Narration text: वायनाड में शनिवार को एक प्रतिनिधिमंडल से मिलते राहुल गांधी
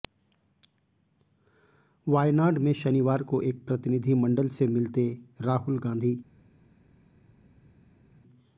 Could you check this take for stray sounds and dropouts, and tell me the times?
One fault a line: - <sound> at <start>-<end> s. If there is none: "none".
none